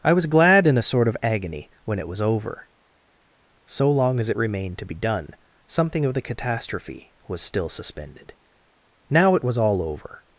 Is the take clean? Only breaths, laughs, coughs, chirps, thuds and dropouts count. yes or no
yes